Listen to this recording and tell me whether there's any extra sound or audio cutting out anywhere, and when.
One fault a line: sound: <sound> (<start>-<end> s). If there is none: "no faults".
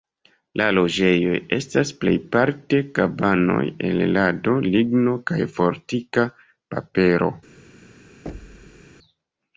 sound: thud (8.3-8.9 s)